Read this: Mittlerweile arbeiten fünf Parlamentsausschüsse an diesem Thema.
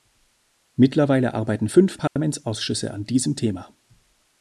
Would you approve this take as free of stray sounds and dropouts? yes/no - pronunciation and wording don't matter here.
no